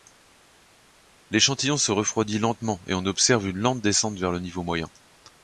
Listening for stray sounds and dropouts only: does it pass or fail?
pass